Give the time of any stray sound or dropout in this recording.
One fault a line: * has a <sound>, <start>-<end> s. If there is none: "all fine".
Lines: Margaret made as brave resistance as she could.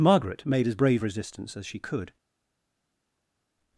all fine